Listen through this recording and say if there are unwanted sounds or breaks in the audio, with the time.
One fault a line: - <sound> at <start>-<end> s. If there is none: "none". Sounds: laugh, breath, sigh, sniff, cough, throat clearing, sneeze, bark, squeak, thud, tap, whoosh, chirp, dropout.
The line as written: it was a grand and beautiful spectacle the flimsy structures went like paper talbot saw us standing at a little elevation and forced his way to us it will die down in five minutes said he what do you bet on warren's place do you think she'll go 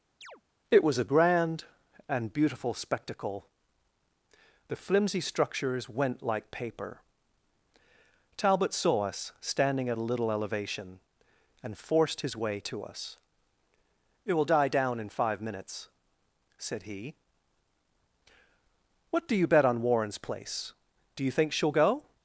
- chirp at 0.2-0.4 s